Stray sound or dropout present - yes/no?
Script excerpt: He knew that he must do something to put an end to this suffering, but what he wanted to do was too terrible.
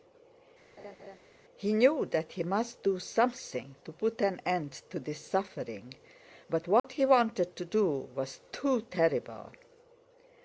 yes